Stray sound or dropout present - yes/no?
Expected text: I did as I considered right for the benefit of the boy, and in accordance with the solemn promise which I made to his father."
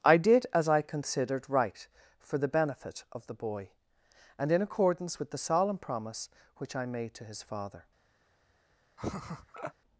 yes